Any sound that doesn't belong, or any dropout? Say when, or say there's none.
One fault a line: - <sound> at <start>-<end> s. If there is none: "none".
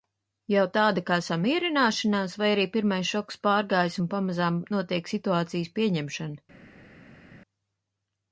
none